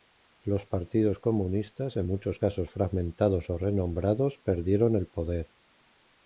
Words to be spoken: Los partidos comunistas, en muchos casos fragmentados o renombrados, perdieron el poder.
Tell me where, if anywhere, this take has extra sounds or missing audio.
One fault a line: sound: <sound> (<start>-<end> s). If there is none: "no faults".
no faults